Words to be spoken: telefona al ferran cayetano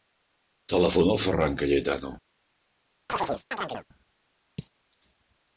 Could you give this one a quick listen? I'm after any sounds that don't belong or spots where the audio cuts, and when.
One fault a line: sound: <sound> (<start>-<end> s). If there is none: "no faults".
sound: chirp (3.1-3.9 s)